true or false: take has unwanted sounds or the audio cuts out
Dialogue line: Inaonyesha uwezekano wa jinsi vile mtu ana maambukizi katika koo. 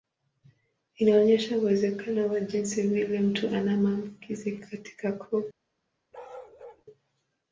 true